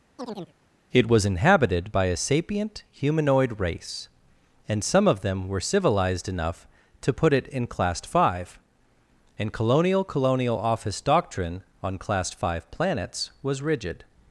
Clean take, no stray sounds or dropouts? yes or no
no